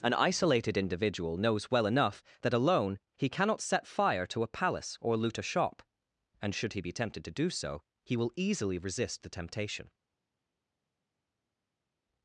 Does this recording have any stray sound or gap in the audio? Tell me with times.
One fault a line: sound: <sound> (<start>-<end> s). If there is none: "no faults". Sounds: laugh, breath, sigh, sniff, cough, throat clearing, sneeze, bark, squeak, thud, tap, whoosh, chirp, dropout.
no faults